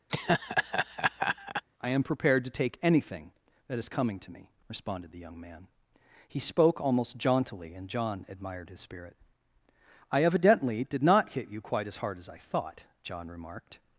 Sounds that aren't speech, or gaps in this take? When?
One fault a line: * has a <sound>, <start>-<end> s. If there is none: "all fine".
* has a laugh, 0.1-1.6 s